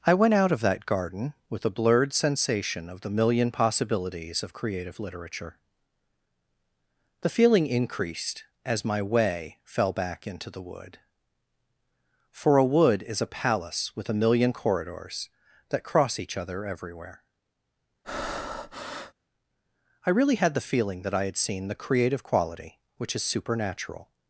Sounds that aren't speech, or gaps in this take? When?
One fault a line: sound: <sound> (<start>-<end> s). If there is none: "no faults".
sound: breath (18.0-19.1 s)